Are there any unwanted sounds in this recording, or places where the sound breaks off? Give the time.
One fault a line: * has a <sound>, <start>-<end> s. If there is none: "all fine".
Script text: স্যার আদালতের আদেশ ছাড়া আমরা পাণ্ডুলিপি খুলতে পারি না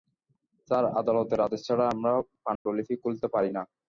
* has a dropout, 2.6-2.7 s